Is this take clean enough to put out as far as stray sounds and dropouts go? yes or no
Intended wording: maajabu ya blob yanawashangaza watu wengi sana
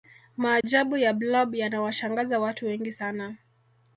no